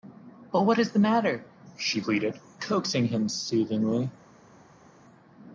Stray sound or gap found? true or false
false